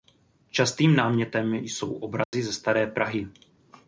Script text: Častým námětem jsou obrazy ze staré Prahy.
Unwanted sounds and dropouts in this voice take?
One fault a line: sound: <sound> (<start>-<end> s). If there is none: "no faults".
sound: dropout (2.2-2.3 s)